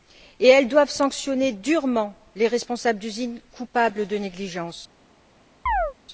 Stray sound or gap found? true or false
true